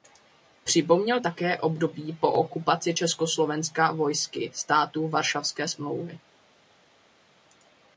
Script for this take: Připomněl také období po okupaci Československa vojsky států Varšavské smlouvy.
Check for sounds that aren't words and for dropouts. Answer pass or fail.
pass